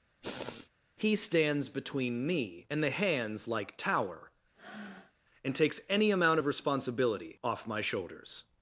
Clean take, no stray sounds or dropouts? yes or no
no